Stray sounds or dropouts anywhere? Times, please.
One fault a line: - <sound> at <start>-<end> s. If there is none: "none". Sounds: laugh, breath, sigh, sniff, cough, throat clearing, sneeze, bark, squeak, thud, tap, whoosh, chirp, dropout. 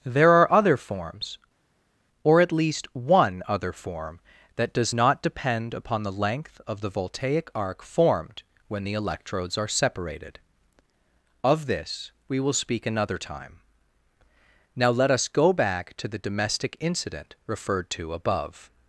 none